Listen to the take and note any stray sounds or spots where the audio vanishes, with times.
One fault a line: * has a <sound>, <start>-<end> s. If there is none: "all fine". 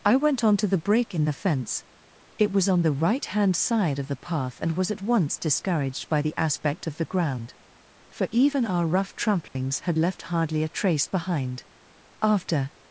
* has a dropout, 9.5-9.6 s